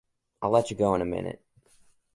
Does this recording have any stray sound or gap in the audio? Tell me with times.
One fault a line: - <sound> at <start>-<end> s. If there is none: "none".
none